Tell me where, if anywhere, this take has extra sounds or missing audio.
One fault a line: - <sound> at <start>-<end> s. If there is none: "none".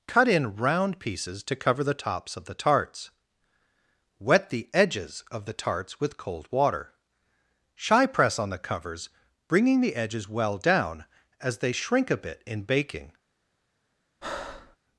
- breath at 14.2-14.8 s